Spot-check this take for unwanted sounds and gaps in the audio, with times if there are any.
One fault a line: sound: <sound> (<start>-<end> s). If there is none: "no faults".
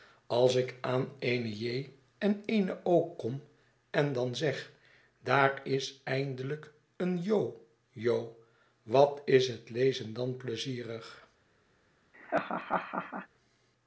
sound: laugh (12.1-13.3 s)